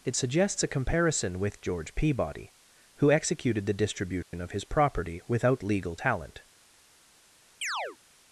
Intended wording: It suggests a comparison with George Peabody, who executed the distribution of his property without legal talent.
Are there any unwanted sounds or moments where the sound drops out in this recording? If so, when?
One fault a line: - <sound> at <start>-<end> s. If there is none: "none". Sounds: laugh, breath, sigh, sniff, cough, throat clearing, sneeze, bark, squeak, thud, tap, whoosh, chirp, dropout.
- dropout at 4.2-4.3 s
- chirp at 7.6-8.0 s